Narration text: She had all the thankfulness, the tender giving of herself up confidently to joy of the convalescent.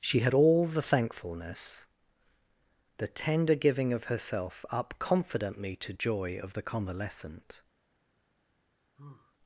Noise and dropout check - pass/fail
fail